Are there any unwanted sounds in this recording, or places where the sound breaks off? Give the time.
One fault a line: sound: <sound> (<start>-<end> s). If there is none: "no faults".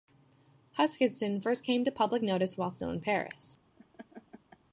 sound: laugh (3.8-4.6 s)